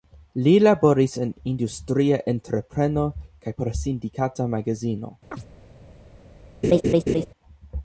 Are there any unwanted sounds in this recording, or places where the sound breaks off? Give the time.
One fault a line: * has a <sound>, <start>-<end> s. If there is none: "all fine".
* has a chirp, 5.3-5.5 s
* has a laugh, 6.6-7.3 s